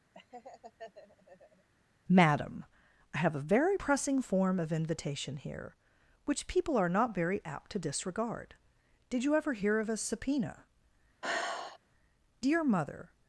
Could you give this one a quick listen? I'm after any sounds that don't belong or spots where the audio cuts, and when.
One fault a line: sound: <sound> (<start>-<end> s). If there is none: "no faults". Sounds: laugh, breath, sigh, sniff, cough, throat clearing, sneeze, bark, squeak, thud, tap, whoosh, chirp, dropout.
sound: laugh (0.1-1.7 s)
sound: sigh (11.2-11.8 s)